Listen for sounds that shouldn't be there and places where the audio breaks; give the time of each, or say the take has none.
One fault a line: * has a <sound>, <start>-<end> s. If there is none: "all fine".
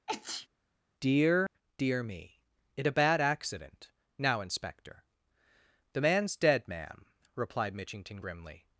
* has a sneeze, 0.1-0.5 s
* has a dropout, 1.5-1.5 s